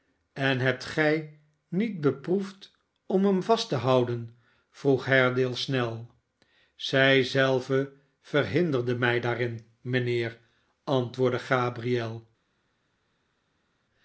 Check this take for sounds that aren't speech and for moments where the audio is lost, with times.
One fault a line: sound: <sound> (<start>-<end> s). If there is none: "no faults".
no faults